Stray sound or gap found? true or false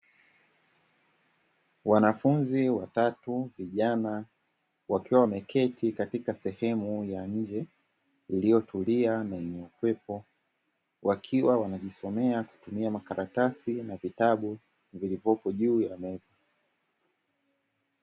false